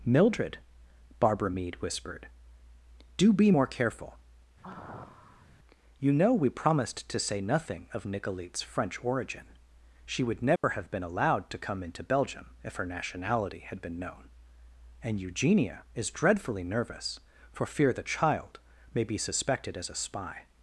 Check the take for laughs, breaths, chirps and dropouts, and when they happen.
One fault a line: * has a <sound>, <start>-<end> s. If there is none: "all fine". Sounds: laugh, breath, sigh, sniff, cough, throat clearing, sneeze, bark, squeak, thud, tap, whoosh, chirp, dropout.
* has a sigh, 4.6-5.5 s
* has a dropout, 10.6-10.6 s